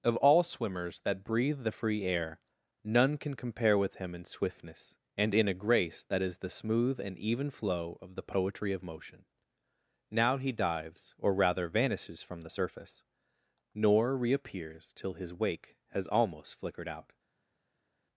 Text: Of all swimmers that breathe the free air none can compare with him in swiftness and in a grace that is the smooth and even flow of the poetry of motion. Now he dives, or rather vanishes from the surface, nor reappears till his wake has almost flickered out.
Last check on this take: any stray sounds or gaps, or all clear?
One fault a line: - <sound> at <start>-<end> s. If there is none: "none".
none